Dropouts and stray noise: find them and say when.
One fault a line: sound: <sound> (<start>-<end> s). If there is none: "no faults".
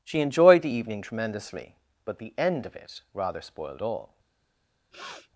sound: sniff (4.9-5.3 s)